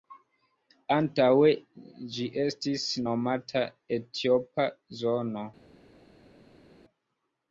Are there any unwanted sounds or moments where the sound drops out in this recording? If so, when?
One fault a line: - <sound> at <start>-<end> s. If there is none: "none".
none